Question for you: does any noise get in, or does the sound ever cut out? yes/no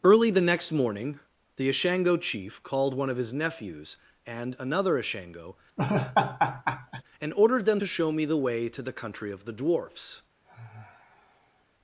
yes